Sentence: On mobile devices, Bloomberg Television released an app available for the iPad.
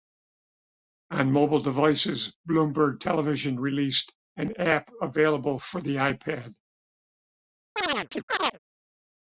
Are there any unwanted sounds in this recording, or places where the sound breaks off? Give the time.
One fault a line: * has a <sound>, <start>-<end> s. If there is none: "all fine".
* has a chirp, 7.8-8.6 s